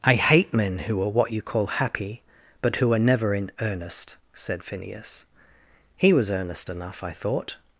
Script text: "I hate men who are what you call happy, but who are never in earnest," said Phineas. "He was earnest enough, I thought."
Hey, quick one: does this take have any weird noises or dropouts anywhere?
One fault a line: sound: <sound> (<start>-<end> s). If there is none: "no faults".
no faults